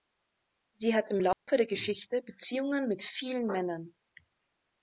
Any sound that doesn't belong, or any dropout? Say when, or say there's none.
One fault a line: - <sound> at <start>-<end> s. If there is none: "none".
- dropout at 1.3-1.5 s